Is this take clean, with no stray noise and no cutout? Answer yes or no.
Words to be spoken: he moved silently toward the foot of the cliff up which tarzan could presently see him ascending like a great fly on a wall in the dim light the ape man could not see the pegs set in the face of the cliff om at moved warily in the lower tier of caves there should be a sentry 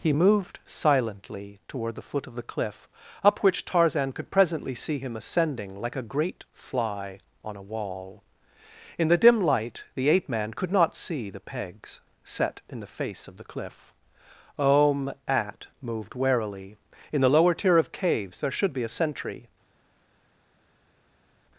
yes